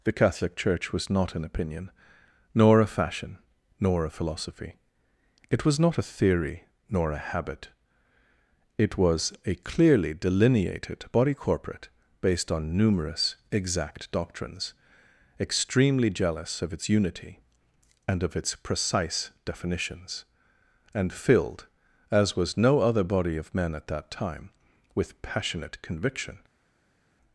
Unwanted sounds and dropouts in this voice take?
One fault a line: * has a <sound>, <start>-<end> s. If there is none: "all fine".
all fine